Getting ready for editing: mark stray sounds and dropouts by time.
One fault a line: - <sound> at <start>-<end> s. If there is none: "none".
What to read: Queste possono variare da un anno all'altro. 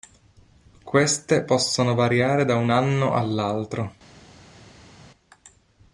none